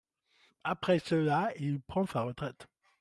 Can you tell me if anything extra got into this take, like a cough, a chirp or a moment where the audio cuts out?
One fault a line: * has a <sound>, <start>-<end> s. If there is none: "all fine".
all fine